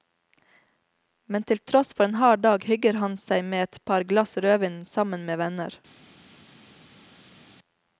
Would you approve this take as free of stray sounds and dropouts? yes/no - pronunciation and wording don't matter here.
yes